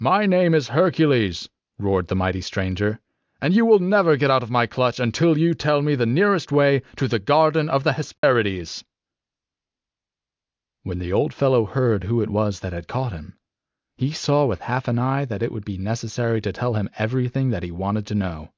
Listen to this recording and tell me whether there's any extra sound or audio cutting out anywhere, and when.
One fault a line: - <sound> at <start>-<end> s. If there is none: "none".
- dropout at 8.2-8.2 s